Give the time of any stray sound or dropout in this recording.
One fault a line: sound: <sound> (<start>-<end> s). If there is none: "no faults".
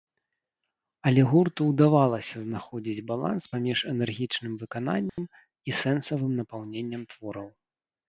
sound: dropout (5.1-5.2 s)